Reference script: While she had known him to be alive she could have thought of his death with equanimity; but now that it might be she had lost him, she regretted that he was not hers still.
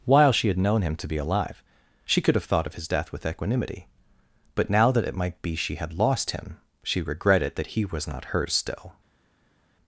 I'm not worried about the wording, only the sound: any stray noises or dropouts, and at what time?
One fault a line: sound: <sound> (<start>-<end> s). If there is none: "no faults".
no faults